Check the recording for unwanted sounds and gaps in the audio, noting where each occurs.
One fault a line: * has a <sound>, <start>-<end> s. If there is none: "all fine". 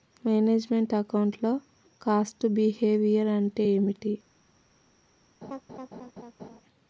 * has a laugh, 5.4-6.6 s